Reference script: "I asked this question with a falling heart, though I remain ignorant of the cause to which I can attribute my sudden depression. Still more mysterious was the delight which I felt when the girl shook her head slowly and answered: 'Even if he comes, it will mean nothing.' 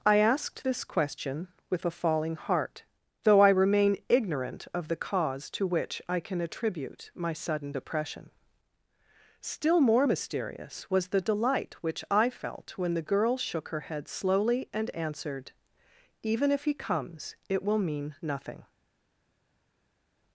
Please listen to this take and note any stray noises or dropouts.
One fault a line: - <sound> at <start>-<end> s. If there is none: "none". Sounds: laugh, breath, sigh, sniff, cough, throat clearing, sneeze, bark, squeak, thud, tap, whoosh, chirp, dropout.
none